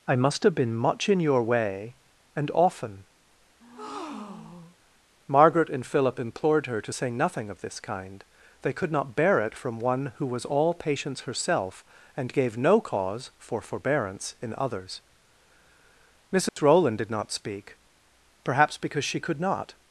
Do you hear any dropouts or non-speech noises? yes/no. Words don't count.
yes